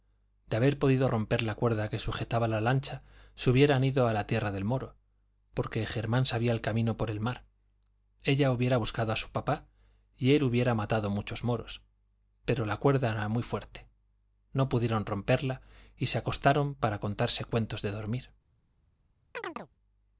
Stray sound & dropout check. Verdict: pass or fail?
fail